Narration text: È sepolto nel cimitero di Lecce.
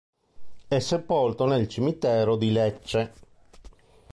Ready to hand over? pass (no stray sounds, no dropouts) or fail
pass